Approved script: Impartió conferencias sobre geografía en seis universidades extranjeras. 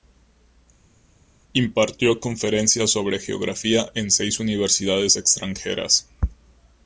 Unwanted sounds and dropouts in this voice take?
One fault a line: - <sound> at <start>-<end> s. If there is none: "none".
none